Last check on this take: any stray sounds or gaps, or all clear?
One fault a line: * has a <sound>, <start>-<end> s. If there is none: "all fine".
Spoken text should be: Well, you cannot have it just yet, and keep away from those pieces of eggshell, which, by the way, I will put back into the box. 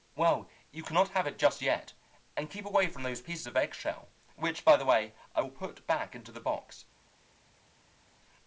all fine